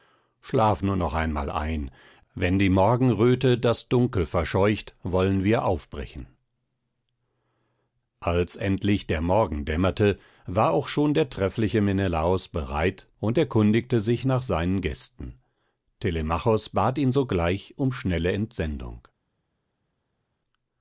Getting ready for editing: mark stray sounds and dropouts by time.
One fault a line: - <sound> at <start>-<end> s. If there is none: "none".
none